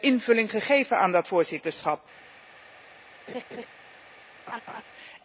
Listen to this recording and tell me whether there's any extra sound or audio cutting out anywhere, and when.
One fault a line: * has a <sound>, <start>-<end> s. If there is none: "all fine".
* has a laugh, 3.3-3.7 s
* has a laugh, 4.5-4.8 s